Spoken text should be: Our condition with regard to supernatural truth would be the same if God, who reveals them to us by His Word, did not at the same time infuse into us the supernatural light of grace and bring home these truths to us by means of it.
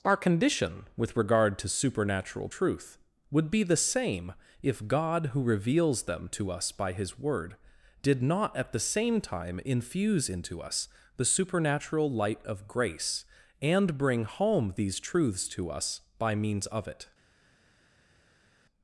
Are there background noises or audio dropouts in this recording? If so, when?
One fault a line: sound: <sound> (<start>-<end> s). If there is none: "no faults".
no faults